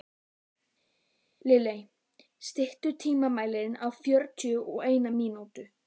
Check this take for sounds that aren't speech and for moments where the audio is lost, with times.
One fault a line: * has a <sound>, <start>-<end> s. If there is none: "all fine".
all fine